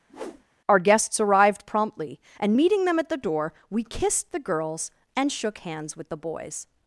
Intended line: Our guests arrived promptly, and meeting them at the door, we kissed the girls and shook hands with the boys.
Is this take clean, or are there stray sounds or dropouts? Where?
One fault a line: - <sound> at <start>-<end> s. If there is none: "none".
- whoosh at 0.1-0.4 s